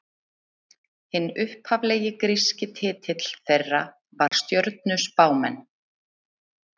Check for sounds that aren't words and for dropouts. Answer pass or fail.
fail